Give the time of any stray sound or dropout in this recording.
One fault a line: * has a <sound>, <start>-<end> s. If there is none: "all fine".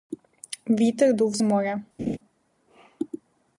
* has a laugh, 2.0-2.2 s